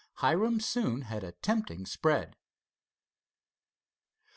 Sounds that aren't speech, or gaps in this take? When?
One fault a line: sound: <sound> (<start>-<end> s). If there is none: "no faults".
no faults